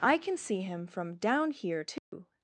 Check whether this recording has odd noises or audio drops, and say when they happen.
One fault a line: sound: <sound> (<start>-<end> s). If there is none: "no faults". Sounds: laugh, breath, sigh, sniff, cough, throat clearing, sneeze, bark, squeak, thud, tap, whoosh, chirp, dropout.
sound: dropout (2.0-2.1 s)